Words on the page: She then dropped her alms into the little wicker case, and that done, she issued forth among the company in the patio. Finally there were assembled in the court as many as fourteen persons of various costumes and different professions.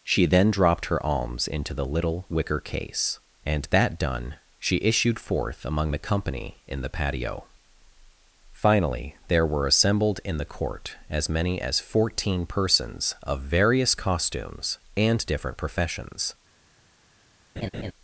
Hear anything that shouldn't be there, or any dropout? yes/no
yes